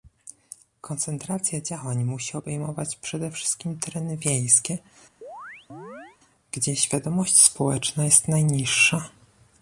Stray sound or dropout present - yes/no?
yes